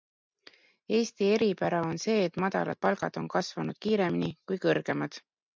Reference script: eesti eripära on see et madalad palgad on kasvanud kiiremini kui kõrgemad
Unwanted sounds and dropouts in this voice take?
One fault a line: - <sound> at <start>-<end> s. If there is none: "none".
none